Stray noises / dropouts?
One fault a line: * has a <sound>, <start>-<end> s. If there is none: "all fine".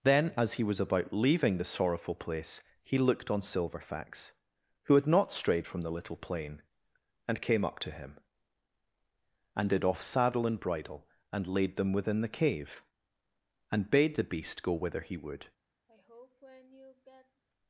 * has a sigh, 15.9-17.4 s